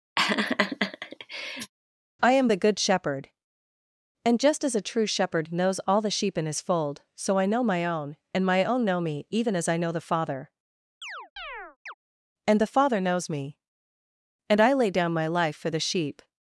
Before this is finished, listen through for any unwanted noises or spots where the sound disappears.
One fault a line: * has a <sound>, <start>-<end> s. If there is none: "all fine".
* has a laugh, 0.2-1.7 s
* has a chirp, 11.0-11.9 s